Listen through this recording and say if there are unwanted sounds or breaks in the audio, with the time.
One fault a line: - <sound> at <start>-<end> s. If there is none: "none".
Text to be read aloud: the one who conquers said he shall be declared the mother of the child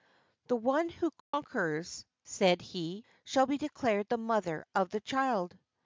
- dropout at 1.2-1.3 s